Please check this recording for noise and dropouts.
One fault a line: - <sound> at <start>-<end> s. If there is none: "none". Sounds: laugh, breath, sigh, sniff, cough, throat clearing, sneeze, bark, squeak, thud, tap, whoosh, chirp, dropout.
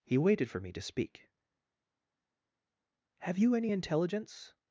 none